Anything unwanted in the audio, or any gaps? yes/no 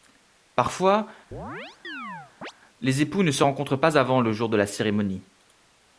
yes